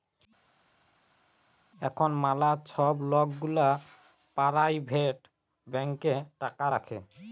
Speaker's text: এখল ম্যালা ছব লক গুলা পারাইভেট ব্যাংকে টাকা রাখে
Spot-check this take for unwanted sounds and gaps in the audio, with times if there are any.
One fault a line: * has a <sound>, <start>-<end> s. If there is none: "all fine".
all fine